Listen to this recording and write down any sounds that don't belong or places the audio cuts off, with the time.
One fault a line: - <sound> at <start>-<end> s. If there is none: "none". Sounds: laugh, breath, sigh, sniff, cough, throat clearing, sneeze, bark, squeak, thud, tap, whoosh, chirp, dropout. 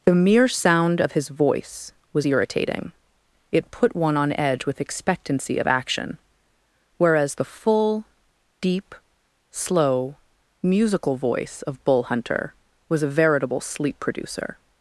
none